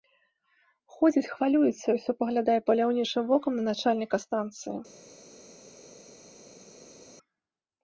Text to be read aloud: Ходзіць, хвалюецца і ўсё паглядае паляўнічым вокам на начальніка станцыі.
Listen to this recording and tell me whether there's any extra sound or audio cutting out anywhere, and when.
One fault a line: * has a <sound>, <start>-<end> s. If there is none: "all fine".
all fine